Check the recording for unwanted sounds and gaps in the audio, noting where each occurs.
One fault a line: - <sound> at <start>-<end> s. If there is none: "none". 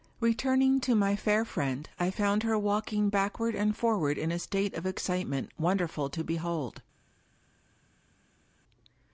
none